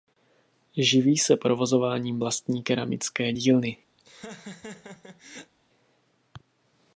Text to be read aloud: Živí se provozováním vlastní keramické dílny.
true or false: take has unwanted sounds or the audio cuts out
true